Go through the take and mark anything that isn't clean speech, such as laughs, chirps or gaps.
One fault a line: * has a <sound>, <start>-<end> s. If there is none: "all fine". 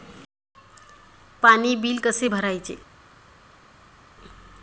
all fine